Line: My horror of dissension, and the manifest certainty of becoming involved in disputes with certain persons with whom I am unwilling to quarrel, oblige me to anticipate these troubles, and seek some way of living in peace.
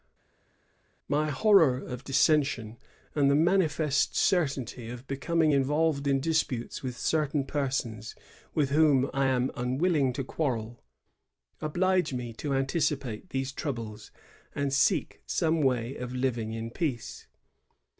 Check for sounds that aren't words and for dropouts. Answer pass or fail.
pass